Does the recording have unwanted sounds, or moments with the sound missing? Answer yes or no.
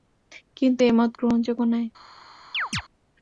yes